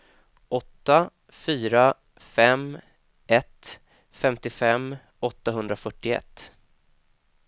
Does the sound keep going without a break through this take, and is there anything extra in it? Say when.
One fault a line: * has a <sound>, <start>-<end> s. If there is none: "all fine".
all fine